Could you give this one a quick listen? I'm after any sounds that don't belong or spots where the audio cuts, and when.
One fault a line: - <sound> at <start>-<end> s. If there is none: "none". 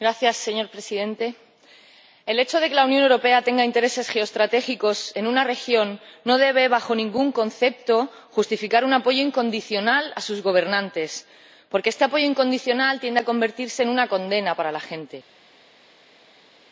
none